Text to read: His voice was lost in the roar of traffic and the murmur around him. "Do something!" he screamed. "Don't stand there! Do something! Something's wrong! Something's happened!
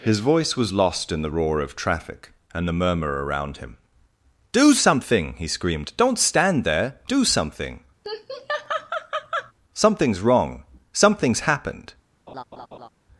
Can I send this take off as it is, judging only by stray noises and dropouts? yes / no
no